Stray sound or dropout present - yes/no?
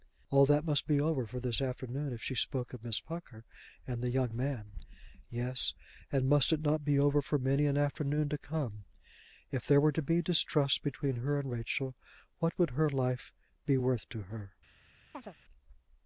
yes